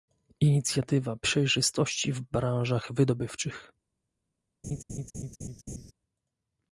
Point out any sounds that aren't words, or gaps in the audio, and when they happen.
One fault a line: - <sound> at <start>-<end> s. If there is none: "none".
- laugh at 4.6-5.9 s